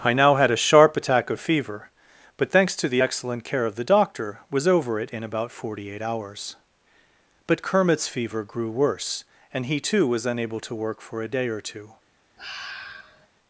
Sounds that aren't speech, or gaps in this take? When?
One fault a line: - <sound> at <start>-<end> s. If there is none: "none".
- sigh at 12.4-13.3 s